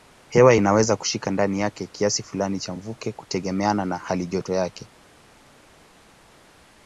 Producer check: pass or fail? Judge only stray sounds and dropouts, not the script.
pass